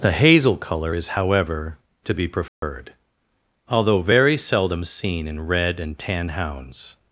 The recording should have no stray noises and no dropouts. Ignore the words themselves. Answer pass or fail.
fail